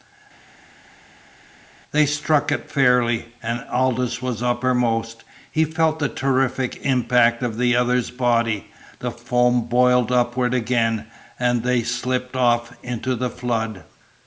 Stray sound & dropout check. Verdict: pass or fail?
pass